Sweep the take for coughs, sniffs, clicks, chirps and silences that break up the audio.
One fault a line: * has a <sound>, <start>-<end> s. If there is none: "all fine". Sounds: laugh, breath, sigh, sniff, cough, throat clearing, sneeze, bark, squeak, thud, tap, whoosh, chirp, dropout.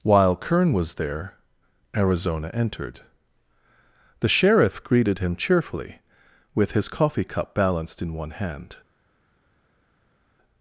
all fine